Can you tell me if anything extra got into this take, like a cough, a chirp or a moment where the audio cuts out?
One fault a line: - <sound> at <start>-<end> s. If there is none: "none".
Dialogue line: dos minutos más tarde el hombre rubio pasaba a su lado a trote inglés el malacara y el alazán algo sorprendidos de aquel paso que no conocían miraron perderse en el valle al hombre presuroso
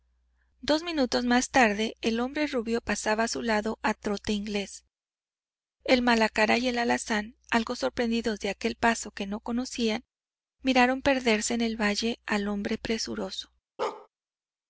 - bark at 13.8-14.1 s